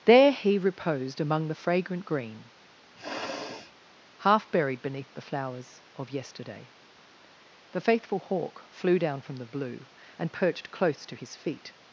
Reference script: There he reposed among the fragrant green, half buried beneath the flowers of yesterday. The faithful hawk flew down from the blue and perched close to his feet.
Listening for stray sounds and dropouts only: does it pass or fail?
fail